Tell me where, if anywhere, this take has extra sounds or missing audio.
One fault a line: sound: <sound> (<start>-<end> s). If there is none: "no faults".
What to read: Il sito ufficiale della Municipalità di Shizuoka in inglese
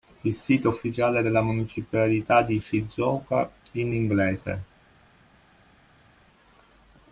no faults